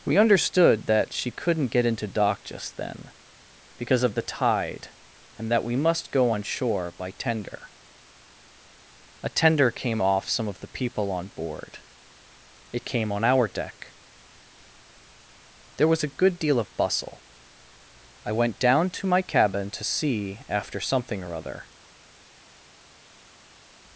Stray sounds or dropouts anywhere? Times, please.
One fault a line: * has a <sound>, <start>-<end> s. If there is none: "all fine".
all fine